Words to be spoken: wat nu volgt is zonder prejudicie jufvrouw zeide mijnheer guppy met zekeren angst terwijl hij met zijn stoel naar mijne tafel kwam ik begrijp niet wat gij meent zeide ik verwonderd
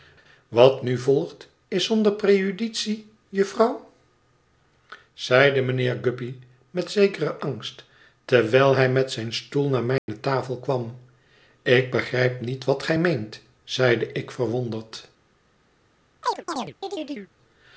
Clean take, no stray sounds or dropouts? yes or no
no